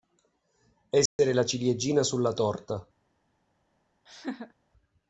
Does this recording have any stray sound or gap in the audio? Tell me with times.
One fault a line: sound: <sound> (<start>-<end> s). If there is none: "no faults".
sound: dropout (1.1-1.2 s)
sound: laugh (4.1-4.5 s)